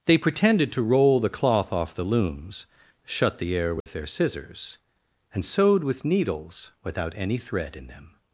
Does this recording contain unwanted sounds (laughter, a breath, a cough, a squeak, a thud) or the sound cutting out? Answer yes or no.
yes